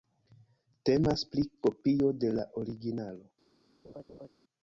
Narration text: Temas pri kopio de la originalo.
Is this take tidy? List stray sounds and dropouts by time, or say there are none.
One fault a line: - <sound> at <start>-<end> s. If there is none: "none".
- laugh at 3.8-4.3 s